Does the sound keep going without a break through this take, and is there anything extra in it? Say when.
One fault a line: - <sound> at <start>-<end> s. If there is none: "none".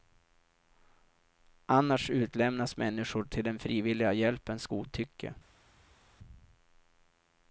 none